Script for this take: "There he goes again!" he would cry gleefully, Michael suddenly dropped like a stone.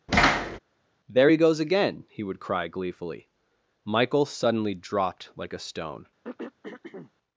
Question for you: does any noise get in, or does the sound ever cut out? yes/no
yes